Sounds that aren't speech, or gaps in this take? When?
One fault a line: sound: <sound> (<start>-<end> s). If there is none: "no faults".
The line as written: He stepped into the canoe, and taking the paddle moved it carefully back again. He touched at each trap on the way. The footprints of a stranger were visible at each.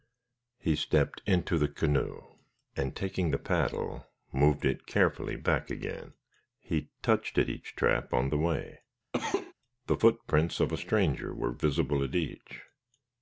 sound: cough (9.1-9.5 s)